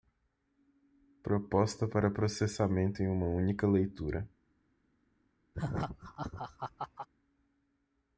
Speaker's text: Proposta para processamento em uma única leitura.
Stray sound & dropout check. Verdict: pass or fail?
fail